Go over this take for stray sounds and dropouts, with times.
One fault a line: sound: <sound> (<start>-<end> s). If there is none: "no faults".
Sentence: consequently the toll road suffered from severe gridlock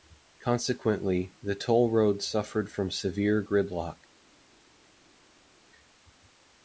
no faults